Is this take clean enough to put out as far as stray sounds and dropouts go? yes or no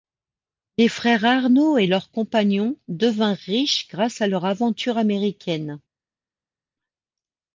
yes